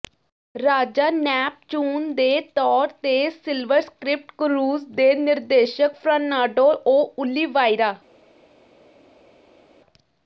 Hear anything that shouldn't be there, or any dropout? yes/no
no